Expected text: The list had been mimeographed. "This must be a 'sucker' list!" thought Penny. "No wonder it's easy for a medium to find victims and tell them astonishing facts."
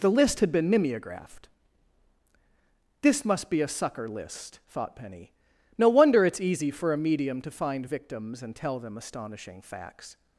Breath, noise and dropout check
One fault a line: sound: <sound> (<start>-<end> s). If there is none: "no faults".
no faults